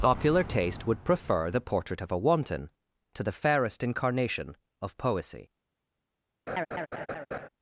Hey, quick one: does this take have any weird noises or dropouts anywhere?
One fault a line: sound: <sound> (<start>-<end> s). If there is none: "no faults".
sound: laugh (6.5-7.5 s)